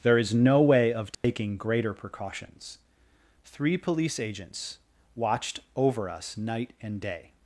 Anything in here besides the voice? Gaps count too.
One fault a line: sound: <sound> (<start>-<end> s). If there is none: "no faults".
sound: dropout (1.1-1.2 s)